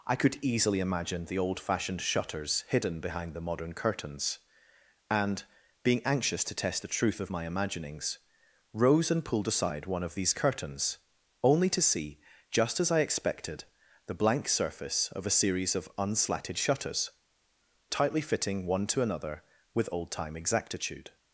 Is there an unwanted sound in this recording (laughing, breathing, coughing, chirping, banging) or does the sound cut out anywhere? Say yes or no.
no